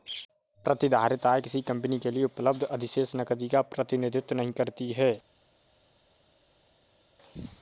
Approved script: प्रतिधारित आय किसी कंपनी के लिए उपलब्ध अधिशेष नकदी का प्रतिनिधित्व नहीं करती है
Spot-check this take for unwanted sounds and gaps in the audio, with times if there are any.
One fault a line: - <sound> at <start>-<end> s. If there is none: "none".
none